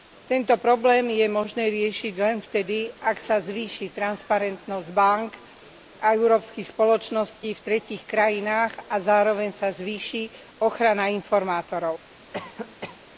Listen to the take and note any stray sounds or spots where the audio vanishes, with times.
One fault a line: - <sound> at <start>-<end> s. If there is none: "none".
- cough at 12.3-13.0 s